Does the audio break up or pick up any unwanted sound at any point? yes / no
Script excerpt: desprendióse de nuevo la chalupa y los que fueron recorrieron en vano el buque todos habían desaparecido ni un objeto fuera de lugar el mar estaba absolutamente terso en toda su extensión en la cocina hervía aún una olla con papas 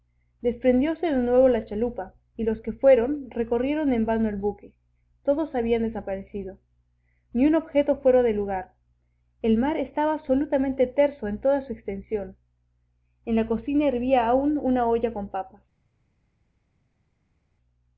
no